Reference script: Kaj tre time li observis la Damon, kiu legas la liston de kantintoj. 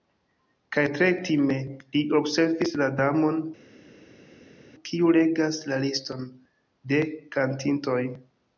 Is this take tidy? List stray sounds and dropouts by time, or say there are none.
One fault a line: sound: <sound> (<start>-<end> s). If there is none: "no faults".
no faults